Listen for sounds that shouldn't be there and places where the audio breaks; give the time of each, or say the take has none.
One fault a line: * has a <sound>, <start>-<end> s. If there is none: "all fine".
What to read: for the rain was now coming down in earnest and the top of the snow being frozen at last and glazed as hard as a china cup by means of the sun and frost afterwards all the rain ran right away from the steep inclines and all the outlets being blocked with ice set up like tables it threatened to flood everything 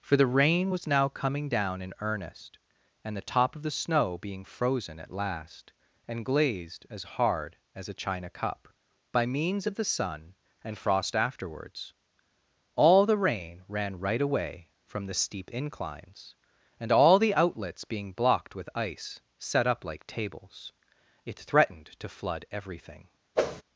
* has a whoosh, 23.3-23.6 s